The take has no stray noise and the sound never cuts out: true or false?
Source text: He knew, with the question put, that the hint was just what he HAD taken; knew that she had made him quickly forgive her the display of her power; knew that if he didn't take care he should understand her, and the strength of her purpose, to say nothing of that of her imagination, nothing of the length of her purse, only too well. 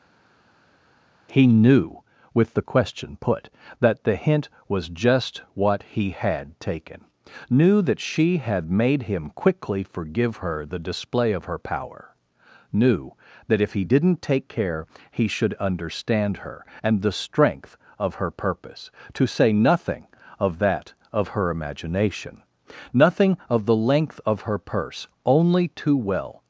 true